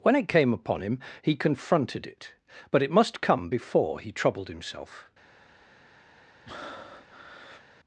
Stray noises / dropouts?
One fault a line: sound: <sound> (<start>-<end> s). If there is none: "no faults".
sound: breath (6.5-7.7 s)